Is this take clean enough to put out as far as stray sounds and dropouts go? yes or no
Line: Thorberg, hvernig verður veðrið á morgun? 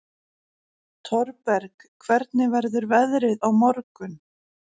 yes